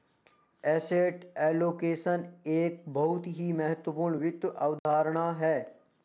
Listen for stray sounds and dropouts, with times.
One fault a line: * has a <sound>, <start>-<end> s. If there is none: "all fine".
* has a dropout, 4.8-4.9 s